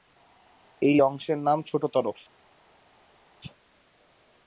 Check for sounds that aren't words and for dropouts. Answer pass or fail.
pass